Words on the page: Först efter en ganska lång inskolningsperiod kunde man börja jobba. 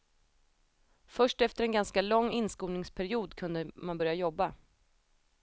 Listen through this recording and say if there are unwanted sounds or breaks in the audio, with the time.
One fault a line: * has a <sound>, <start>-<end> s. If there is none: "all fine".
all fine